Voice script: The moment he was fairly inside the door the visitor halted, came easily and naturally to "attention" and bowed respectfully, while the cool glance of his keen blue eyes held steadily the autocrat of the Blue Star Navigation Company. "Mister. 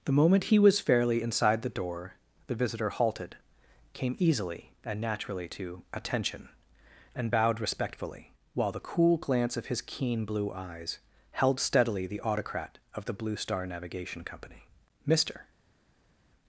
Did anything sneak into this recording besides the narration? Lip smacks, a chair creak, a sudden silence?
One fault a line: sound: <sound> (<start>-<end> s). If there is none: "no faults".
no faults